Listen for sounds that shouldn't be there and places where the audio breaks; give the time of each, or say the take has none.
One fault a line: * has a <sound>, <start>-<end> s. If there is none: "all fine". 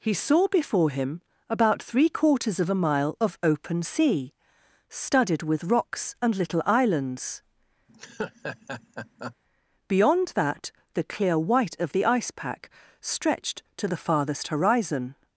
* has a laugh, 7.9-9.4 s